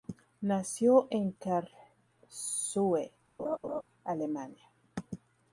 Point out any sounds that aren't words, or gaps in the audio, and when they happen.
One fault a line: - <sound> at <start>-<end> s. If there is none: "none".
- laugh at 3.4-3.8 s